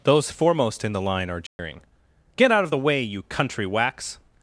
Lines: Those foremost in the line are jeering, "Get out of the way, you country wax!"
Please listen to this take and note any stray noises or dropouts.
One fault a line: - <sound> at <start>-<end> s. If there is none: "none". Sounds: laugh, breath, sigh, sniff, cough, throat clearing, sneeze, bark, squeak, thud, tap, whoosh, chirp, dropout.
- dropout at 1.5-1.6 s